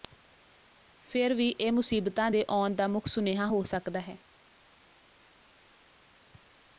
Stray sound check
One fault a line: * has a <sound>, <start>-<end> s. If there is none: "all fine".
all fine